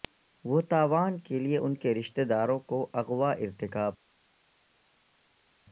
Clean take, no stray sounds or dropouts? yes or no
yes